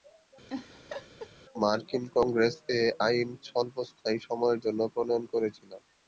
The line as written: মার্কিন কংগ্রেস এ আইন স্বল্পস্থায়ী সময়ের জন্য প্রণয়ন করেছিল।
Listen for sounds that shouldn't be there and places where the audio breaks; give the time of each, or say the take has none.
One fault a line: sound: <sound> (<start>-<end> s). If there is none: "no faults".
sound: laugh (0.5-1.3 s)